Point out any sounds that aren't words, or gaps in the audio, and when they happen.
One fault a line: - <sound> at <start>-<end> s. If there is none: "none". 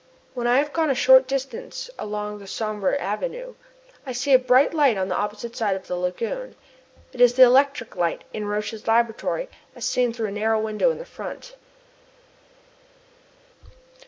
none